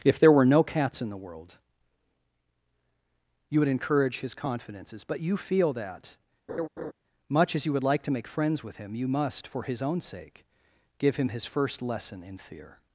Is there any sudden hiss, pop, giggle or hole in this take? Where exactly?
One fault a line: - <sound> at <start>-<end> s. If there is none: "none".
- laugh at 6.5-6.9 s